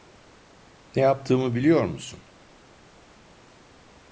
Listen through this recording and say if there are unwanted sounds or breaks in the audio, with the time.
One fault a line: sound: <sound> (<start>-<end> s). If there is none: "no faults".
no faults